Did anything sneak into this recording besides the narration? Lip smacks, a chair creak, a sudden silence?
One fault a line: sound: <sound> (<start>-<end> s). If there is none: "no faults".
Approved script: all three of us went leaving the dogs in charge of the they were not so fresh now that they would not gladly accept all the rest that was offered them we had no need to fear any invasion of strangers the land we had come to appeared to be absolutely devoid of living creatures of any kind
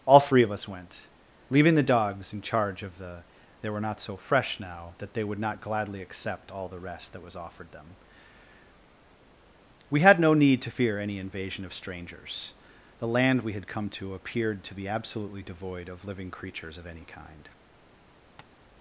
sound: tap (18.4-18.5 s)